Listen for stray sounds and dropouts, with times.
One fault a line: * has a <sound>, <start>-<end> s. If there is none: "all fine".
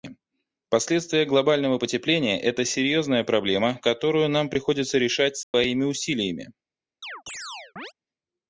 * has a dropout, 5.4-5.5 s
* has a chirp, 7.0-7.9 s